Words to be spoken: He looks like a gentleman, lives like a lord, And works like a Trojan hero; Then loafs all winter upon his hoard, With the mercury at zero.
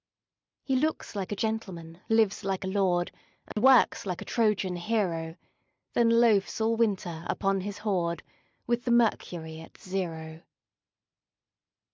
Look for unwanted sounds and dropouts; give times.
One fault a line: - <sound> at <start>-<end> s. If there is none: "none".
- dropout at 3.5-3.6 s